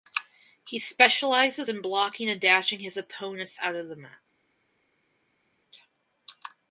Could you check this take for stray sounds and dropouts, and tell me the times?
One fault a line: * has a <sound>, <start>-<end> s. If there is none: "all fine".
all fine